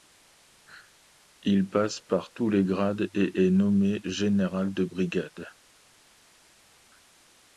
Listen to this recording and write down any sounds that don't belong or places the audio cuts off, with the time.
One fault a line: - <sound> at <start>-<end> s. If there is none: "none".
none